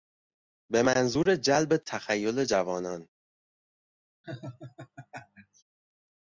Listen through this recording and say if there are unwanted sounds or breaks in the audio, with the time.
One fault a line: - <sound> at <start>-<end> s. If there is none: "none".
- laugh at 4.2-5.6 s